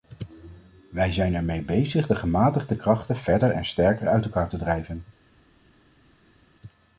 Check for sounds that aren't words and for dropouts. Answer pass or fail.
pass